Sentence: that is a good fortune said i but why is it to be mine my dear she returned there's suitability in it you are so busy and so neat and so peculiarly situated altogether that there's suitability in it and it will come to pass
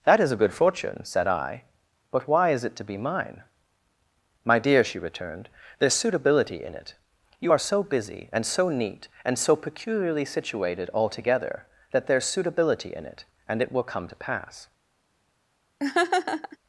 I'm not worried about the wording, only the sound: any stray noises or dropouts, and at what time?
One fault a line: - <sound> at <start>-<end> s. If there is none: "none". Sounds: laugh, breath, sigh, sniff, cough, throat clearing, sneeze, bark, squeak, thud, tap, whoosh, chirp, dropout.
- laugh at 15.8-16.6 s